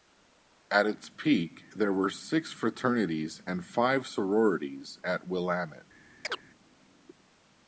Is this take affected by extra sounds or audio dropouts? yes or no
yes